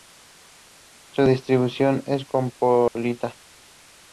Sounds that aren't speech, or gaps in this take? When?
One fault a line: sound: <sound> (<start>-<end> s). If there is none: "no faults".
sound: dropout (2.9-3.0 s)